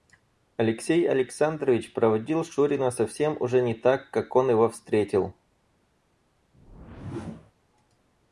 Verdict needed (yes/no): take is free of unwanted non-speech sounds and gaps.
no